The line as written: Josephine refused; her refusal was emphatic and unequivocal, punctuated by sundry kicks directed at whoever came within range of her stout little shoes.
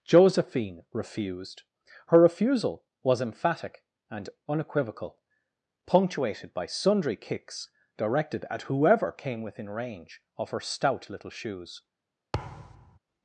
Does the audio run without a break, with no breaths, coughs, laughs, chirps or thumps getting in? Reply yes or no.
no